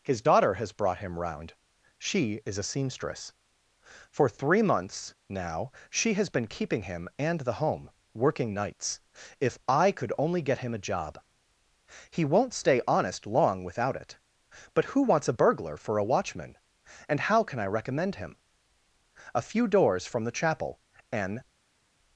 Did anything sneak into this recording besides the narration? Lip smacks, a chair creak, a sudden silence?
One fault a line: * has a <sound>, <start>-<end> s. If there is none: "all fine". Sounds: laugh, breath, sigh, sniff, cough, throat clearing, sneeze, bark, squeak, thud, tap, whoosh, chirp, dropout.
all fine